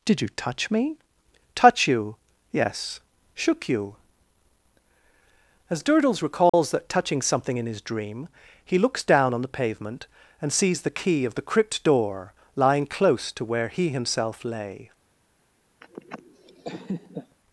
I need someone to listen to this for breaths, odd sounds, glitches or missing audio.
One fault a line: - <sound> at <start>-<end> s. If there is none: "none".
- dropout at 6.5-6.5 s
- laugh at 15.8-17.4 s